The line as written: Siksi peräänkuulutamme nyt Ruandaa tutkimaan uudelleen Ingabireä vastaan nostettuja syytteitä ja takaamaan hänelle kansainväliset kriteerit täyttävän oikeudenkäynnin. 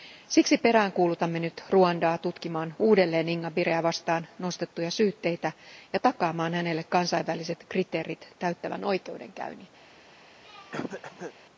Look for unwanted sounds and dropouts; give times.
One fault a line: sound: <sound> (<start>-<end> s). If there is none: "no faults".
sound: throat clearing (10.4-11.3 s)